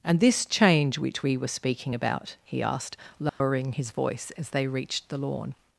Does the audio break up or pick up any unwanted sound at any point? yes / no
yes